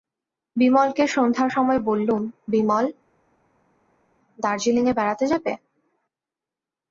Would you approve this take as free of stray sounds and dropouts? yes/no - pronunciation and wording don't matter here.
yes